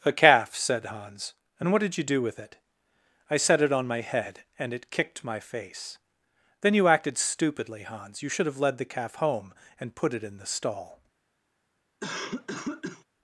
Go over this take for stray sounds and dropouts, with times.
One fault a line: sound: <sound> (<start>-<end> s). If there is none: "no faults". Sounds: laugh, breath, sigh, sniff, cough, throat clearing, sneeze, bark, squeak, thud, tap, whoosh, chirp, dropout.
sound: cough (12.0-13.0 s)